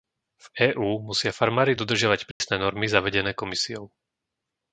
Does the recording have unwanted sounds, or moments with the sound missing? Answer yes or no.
yes